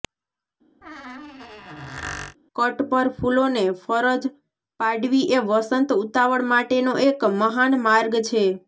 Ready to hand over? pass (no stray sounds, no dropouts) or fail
fail